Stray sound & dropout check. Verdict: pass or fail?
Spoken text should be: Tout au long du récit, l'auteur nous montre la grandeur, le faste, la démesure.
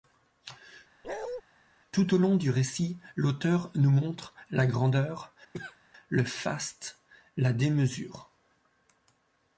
fail